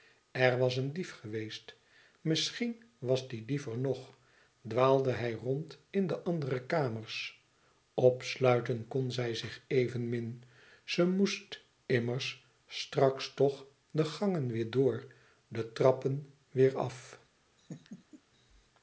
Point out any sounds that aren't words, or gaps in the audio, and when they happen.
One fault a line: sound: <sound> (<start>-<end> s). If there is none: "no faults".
sound: laugh (17.6-18.2 s)